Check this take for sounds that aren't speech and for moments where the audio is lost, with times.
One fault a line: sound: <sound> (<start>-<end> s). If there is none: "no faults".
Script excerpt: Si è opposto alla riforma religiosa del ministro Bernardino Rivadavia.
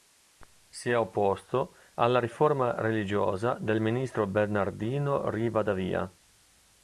no faults